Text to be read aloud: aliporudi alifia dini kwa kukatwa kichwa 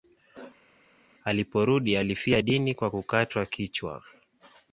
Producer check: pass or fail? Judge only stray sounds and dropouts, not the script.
pass